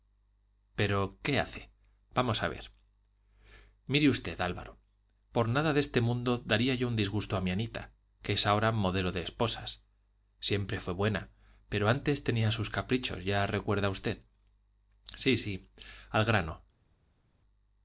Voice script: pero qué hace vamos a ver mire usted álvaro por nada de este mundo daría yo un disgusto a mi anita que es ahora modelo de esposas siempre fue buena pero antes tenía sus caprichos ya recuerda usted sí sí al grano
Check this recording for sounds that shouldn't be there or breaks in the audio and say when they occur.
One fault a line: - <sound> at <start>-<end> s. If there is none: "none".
none